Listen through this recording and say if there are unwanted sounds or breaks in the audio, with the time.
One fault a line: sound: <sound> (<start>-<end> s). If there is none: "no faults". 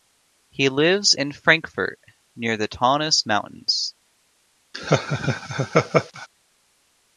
sound: laugh (4.7-6.3 s)